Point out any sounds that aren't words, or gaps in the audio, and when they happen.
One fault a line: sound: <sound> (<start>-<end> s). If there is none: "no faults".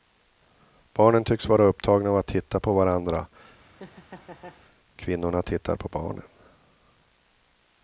sound: laugh (3.6-4.7 s)